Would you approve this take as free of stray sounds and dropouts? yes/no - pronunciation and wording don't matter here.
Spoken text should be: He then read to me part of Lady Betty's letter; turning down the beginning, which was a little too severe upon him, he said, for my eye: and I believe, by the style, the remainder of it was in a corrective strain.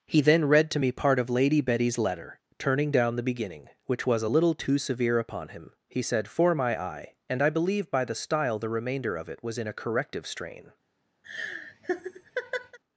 no